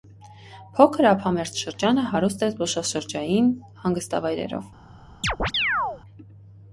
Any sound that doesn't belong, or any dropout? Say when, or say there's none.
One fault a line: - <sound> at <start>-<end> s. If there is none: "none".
- chirp at 5.2-6.0 s